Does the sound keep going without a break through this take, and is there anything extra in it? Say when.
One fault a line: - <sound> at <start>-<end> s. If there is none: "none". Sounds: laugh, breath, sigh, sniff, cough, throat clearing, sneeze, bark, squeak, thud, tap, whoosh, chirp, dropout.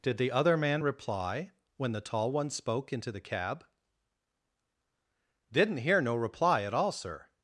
none